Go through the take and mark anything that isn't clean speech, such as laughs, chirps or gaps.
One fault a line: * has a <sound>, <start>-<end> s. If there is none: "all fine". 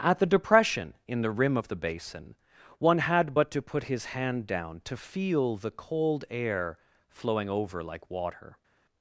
all fine